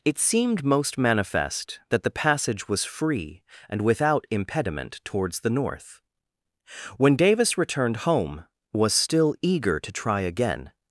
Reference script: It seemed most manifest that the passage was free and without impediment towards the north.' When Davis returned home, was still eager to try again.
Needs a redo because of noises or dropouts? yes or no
no